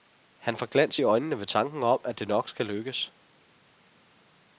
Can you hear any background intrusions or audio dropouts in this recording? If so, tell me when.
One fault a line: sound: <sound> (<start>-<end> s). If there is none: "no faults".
no faults